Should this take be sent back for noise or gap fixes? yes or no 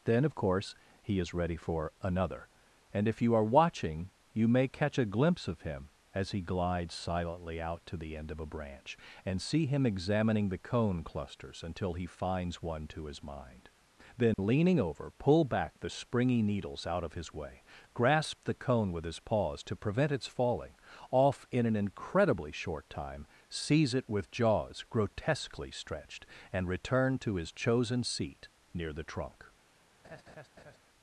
yes